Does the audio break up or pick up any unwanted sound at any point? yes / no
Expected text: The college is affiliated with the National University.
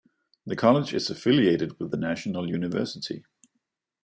no